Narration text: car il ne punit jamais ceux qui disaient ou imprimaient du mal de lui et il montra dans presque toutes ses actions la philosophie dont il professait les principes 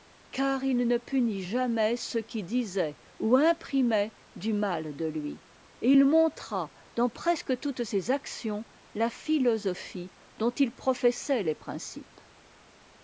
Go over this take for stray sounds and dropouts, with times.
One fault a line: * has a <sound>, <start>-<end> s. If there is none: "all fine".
all fine